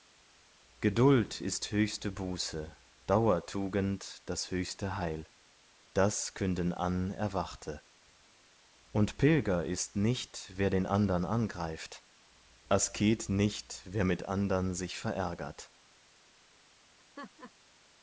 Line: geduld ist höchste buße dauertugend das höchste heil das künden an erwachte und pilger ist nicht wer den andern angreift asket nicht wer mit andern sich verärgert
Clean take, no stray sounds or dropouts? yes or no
no